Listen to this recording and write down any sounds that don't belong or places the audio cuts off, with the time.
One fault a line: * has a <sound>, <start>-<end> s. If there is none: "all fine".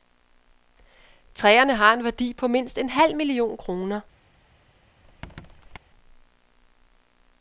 * has a squeak, 5.0-5.8 s